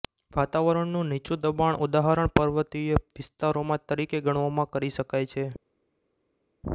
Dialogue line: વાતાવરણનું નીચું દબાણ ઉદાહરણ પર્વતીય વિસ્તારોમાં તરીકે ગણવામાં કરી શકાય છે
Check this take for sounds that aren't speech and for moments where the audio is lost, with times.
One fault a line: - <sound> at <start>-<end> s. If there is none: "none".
none